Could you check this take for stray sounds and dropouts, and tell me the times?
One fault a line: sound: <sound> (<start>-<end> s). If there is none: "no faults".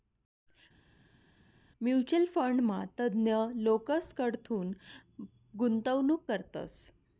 no faults